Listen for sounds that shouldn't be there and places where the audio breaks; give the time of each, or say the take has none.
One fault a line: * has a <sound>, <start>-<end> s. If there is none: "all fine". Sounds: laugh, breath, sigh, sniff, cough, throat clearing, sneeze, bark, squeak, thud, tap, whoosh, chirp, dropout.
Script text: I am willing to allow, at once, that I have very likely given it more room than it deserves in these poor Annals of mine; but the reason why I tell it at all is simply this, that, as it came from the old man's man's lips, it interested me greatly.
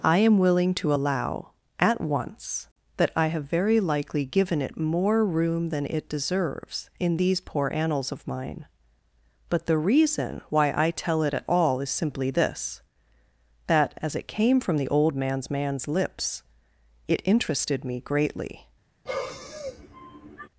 * has a sigh, 19.1-20.5 s